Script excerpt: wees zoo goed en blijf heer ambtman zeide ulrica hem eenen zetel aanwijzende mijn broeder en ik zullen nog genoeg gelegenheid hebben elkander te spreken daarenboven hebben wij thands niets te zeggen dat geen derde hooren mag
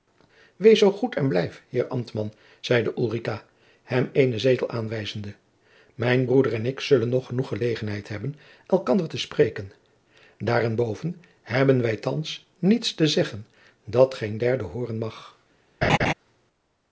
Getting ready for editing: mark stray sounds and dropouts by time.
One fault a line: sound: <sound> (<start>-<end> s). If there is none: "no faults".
sound: laugh (15.8-16.1 s)